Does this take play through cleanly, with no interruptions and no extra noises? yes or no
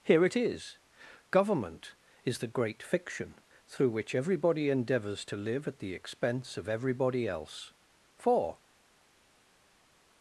yes